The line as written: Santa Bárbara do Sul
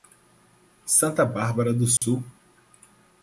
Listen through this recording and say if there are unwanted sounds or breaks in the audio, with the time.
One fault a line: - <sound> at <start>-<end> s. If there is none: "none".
- dropout at 2.0-2.0 s